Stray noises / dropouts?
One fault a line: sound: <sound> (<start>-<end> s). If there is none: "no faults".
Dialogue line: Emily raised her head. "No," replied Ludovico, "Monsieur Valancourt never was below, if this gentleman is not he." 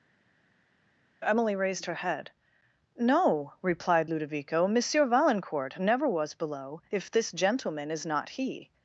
no faults